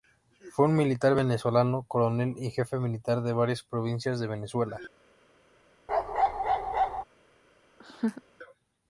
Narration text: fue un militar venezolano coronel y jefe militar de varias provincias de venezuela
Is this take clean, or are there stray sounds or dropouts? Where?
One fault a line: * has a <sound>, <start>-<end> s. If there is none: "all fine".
* has a bark, 5.9-7.0 s
* has a laugh, 7.8-8.2 s